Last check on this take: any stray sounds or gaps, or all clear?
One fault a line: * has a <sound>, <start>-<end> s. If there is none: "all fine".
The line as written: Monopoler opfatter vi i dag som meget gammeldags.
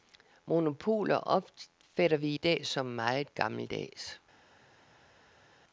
all fine